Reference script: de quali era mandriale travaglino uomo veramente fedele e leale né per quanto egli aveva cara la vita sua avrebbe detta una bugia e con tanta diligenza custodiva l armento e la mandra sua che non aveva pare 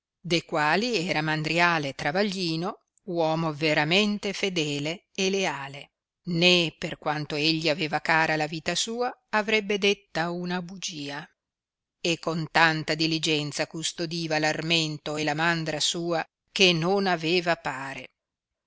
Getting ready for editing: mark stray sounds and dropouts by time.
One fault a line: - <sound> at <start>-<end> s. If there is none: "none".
none